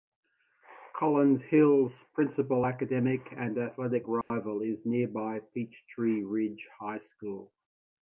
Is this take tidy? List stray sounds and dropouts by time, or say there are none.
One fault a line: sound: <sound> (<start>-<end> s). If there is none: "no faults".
sound: dropout (4.2-4.3 s)